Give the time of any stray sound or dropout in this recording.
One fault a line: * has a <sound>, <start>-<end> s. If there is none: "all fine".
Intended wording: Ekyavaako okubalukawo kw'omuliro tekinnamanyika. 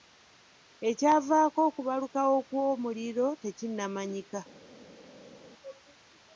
all fine